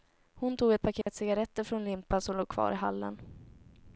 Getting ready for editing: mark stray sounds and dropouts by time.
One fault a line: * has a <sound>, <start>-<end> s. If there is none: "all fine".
* has a dropout, 1.0-1.1 s